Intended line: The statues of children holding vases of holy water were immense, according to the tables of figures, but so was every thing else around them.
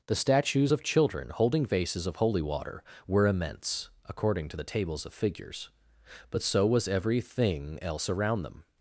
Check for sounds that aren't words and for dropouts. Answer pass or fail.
pass